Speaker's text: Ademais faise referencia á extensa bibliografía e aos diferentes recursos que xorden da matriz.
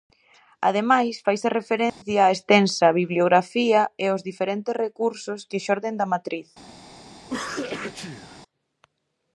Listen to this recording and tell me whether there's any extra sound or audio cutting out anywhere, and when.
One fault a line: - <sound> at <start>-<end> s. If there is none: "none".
- dropout at 1.9-2.0 s
- sneeze at 7.2-8.4 s